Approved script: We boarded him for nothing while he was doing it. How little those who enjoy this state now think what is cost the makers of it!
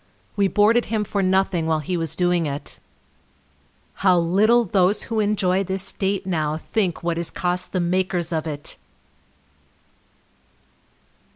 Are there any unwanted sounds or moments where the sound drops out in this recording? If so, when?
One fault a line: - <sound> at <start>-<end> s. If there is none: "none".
none